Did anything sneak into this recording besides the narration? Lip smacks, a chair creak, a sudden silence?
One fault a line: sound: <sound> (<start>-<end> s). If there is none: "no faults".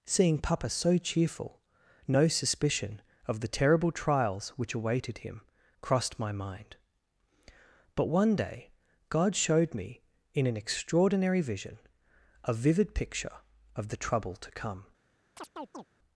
sound: chirp (15.4-15.9 s)